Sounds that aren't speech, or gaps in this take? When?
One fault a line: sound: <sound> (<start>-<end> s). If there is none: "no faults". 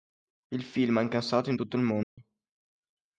sound: dropout (2.0-2.2 s)